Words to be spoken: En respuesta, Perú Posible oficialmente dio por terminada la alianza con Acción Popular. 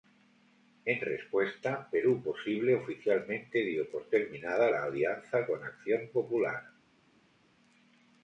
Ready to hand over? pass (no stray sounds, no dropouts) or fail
pass